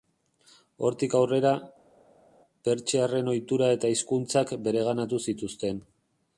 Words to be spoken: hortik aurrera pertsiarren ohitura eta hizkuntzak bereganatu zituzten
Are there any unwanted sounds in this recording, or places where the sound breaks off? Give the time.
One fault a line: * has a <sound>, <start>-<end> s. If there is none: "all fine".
all fine